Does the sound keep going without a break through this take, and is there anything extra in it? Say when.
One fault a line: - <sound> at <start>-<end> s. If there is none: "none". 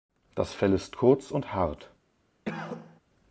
- cough at 2.5-3.0 s